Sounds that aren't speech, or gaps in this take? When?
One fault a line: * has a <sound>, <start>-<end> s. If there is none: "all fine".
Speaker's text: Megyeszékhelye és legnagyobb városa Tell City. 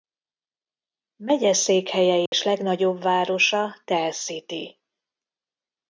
* has a dropout, 2.3-2.3 s